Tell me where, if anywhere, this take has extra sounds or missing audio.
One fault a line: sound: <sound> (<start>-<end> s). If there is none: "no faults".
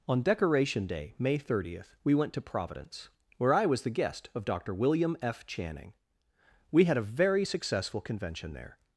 no faults